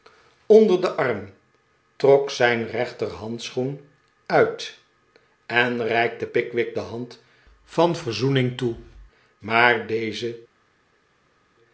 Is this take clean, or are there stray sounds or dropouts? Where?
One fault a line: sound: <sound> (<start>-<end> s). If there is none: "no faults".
no faults